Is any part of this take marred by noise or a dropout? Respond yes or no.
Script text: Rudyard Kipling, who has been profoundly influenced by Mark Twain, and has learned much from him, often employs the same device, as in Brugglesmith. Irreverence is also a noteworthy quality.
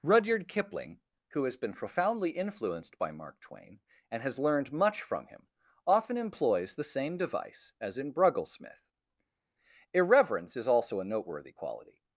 no